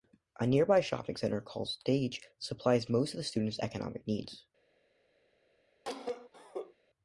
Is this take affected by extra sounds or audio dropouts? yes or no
yes